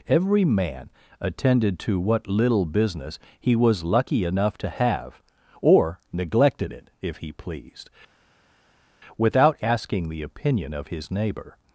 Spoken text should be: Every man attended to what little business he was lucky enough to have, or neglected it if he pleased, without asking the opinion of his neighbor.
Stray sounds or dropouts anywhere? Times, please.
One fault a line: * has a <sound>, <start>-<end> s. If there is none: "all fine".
all fine